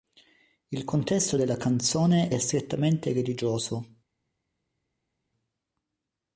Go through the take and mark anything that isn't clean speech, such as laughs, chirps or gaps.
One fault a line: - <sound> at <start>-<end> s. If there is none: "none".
none